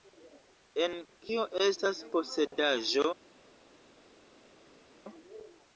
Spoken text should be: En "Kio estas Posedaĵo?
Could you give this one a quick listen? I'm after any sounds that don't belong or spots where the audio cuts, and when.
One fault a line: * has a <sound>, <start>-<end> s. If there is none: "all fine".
all fine